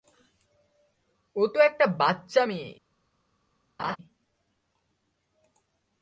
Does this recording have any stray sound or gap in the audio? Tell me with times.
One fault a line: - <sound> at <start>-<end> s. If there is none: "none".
- laugh at 3.8-4.0 s